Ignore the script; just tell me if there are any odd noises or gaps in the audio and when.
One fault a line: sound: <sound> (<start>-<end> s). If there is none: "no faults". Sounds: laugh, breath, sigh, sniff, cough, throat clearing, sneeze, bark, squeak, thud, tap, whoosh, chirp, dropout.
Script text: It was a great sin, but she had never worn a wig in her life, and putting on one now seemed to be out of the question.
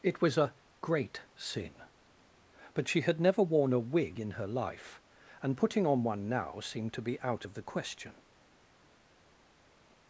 no faults